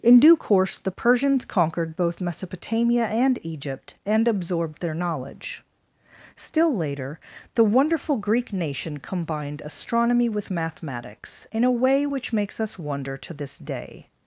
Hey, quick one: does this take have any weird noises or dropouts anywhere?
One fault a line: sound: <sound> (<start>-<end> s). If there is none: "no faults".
no faults